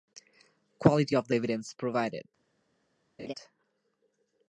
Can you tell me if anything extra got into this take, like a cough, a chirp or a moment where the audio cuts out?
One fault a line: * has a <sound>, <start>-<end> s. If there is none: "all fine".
* has a laugh, 3.2-3.3 s